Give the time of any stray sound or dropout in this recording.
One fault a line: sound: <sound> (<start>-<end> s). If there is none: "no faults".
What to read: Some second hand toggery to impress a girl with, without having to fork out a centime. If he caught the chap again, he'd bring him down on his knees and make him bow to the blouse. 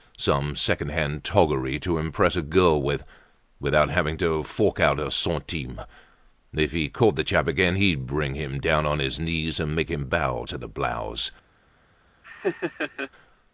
sound: laugh (12.2-13.1 s)